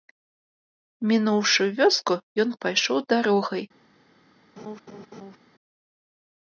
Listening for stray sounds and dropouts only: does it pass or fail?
fail